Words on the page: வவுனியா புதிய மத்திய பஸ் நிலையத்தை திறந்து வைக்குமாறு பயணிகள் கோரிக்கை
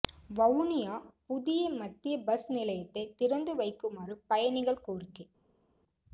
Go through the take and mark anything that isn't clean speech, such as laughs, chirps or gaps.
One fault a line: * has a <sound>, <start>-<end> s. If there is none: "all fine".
all fine